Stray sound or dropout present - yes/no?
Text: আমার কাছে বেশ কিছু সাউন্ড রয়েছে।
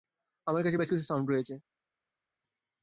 no